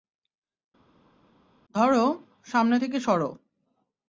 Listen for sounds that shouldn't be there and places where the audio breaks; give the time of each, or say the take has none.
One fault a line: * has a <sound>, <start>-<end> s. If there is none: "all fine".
all fine